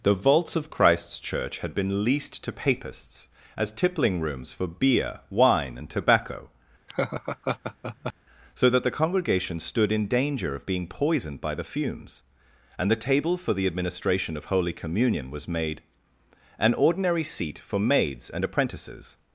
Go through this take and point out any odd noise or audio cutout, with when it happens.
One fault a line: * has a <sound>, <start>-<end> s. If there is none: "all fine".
* has a laugh, 6.9-8.1 s